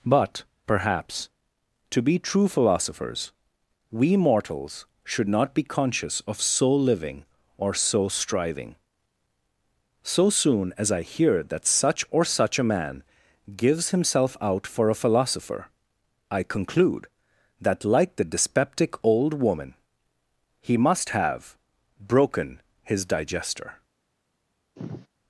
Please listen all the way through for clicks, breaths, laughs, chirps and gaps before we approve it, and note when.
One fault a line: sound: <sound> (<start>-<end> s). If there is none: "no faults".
sound: sigh (24.8-25.1 s)